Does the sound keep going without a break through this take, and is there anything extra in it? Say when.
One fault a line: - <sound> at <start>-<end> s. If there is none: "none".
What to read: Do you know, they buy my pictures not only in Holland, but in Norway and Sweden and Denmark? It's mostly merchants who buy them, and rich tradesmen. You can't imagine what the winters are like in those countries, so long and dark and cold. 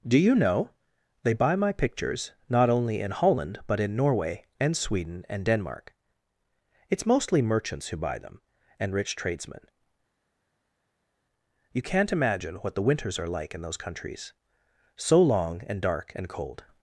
none